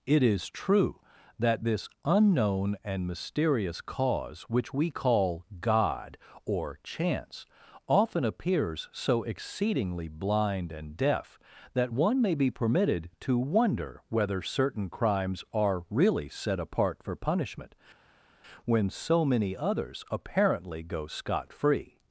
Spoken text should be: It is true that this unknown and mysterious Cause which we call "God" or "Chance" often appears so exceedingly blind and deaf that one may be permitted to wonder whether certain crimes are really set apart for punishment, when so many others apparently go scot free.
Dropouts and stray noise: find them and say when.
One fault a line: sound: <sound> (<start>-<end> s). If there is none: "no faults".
no faults